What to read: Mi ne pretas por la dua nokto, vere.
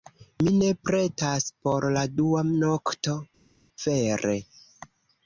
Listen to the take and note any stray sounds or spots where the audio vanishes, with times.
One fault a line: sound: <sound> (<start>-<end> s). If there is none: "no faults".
no faults